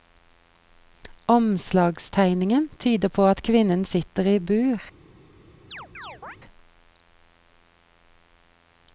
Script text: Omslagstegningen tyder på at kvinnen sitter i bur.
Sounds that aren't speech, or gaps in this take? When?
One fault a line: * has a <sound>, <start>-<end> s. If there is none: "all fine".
* has a chirp, 5.7-6.4 s